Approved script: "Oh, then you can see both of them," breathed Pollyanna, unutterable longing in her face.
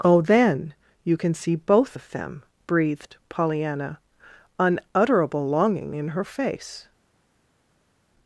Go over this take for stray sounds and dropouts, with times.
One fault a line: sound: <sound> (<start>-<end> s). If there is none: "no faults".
no faults